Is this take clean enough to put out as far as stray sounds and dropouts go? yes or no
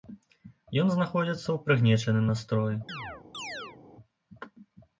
no